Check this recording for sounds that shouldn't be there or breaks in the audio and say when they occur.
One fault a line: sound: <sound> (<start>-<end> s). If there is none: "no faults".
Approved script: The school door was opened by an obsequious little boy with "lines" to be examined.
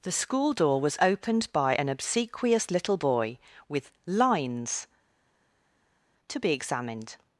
no faults